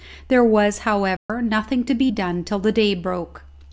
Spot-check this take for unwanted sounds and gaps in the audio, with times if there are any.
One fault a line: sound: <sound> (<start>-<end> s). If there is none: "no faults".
sound: dropout (1.2-1.3 s)